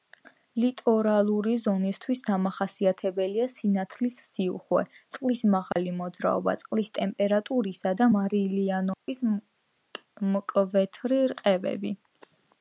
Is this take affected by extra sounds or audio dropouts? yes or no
yes